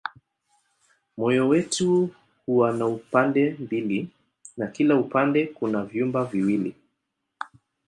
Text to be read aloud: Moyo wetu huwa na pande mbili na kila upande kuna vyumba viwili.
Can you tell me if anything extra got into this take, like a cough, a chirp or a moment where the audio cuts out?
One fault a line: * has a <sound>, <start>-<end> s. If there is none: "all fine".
all fine